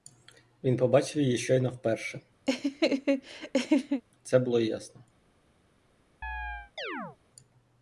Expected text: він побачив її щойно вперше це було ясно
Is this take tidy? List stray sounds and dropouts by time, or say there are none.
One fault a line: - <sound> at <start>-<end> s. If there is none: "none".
- laugh at 2.5-4.0 s
- chirp at 6.2-7.2 s